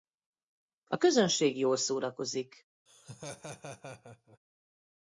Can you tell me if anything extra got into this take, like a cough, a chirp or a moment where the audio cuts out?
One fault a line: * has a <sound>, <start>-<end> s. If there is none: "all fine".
* has a laugh, 2.9-4.4 s